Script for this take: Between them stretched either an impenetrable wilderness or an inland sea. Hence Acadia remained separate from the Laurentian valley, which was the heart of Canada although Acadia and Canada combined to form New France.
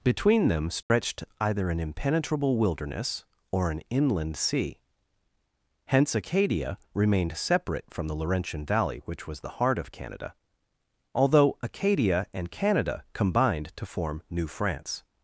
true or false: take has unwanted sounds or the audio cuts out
true